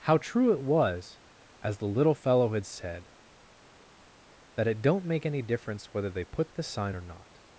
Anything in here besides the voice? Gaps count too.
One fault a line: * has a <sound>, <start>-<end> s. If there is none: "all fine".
all fine